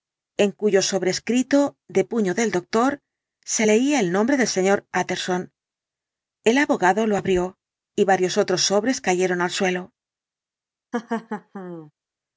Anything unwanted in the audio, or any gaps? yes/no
yes